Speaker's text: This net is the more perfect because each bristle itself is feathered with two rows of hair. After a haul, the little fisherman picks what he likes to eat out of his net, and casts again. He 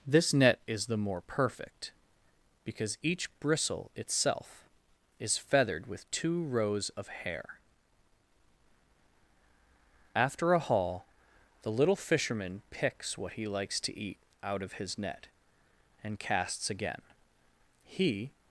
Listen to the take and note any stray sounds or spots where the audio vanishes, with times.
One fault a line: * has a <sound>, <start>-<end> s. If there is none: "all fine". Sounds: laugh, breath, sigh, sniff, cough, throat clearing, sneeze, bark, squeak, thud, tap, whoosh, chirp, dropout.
all fine